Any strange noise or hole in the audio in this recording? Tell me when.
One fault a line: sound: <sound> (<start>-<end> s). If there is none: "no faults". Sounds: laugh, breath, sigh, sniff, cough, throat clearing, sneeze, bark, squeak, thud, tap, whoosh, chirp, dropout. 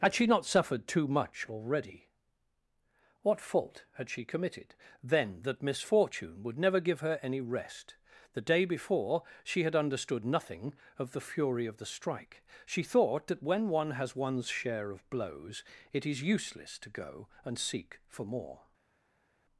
no faults